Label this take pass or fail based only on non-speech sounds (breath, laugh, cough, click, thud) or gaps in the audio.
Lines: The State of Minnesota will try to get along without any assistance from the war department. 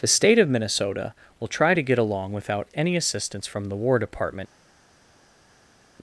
pass